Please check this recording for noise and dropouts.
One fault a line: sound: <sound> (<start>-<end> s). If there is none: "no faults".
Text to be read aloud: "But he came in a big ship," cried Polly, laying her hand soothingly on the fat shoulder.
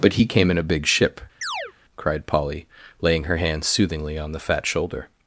sound: chirp (1.4-1.7 s)